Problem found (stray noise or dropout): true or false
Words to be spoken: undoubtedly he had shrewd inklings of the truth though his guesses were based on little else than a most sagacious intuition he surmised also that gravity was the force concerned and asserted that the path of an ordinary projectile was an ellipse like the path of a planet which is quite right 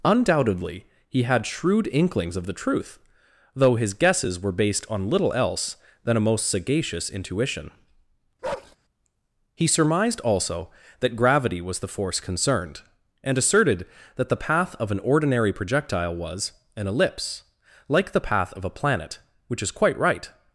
true